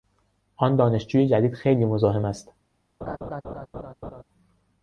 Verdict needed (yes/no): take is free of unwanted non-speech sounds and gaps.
no